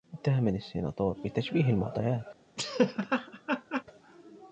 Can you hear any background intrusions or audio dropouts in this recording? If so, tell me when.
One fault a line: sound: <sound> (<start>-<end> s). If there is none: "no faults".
sound: laugh (2.6-3.8 s)